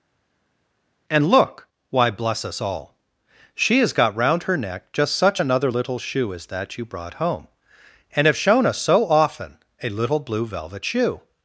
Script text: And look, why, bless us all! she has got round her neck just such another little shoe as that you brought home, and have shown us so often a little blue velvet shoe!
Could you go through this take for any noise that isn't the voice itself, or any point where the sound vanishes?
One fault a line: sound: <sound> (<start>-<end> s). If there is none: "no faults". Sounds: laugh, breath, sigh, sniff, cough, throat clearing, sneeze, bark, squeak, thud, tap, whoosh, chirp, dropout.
no faults